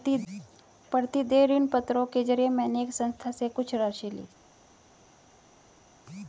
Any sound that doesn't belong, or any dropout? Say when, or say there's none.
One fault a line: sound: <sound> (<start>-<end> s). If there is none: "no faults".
no faults